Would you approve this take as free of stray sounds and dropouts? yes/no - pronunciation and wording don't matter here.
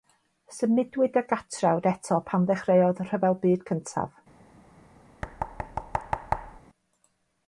no